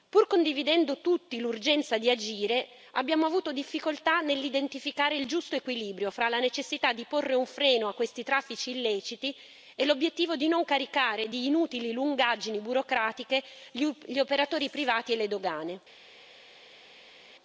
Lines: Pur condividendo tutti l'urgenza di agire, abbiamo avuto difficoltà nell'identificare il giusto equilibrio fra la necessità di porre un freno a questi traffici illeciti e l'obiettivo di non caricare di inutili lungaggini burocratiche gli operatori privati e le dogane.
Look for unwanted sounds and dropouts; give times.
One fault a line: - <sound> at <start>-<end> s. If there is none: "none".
none